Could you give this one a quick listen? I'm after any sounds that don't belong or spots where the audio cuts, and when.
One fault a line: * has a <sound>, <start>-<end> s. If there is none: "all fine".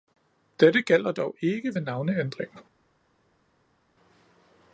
all fine